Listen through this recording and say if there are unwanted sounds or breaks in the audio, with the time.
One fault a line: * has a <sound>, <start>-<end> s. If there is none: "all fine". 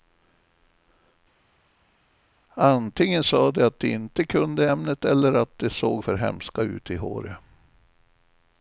all fine